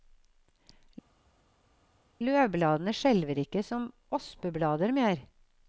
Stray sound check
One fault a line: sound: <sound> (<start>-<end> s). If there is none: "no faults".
no faults